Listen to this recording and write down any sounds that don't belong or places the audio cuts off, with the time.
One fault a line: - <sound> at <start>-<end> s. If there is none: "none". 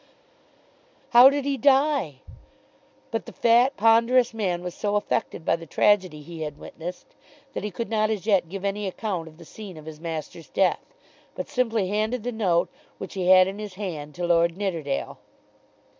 none